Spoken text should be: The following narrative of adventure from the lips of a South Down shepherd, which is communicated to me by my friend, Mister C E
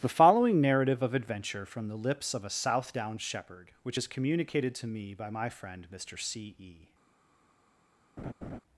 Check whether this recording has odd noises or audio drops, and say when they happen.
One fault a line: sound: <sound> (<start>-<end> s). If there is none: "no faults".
sound: laugh (8.2-8.6 s)